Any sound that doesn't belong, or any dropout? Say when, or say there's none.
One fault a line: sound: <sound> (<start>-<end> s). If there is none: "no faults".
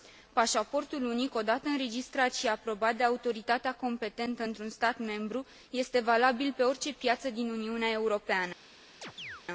sound: chirp (9.0-9.4 s)